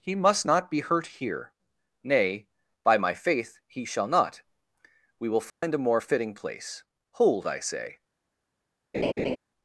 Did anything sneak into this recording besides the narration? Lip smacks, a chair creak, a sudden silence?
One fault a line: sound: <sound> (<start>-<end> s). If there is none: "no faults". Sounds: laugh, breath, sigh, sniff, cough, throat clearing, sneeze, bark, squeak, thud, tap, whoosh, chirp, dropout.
sound: dropout (5.5-5.6 s)
sound: laugh (8.9-9.4 s)